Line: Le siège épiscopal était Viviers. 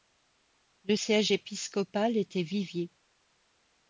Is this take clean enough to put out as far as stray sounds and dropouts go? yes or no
yes